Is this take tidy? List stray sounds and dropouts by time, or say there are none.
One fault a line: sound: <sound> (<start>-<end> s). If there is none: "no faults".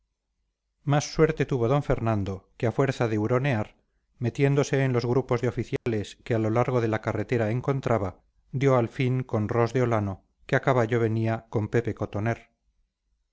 sound: dropout (5.8-5.9 s)